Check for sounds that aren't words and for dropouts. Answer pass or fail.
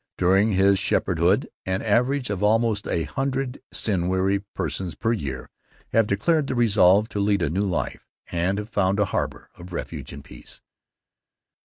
pass